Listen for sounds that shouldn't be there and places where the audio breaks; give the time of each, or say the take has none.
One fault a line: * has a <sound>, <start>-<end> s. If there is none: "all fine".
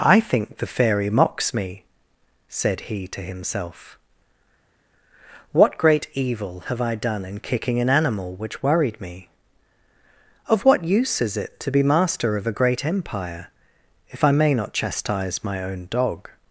all fine